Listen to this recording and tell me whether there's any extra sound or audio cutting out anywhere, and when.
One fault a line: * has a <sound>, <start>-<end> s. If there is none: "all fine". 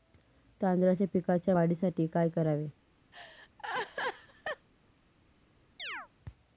* has a laugh, 3.1-4.7 s
* has a chirp, 5.8-6.1 s